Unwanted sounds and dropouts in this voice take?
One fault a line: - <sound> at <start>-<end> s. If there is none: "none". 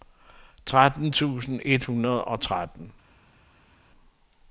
none